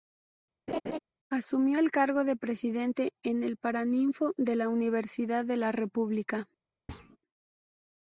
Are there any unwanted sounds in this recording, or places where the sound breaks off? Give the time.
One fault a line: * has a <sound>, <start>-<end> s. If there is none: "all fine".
* has a laugh, 0.7-1.0 s
* has a thud, 6.9-7.2 s